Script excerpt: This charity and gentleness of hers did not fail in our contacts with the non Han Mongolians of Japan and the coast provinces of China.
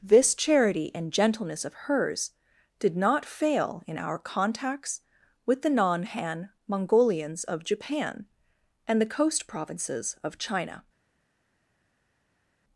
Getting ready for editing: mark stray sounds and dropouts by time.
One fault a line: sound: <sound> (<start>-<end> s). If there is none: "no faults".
no faults